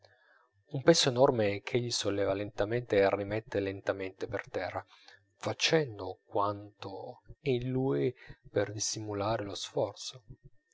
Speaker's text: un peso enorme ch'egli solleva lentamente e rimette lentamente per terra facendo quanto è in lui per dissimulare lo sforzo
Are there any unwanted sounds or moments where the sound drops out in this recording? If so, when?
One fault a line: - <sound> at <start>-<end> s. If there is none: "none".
none